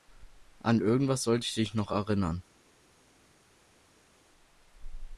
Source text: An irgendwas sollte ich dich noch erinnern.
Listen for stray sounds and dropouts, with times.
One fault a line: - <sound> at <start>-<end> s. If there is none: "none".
none